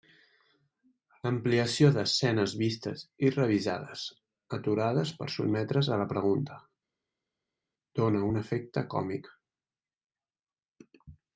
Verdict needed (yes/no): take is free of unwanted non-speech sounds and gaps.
yes